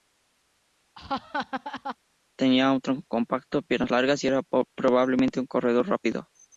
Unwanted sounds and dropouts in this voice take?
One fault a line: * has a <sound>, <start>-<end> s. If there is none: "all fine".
* has a laugh, 0.9-2.0 s